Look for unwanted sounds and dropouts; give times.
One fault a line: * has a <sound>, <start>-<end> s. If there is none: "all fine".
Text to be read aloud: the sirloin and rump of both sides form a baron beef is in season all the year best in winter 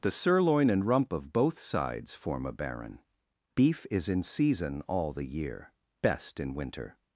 all fine